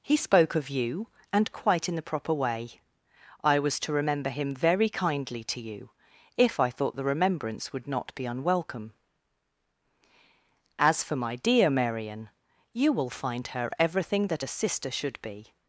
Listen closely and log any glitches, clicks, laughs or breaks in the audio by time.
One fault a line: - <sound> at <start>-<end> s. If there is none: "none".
none